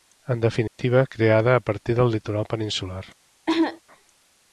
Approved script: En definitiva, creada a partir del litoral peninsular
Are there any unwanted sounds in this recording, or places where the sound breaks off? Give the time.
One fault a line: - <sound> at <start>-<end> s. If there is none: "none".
- dropout at 0.7-0.8 s
- cough at 3.5-3.8 s